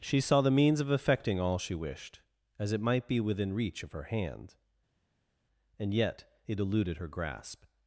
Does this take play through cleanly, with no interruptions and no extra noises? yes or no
yes